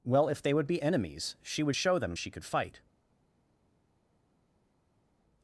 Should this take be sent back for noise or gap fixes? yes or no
no